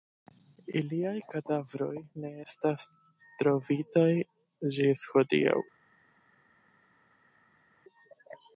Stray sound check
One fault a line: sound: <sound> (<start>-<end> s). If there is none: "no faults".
no faults